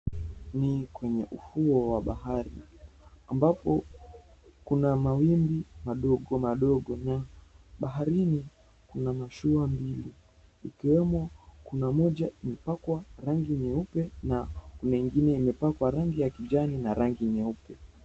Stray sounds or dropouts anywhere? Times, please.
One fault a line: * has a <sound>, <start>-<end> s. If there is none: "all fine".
all fine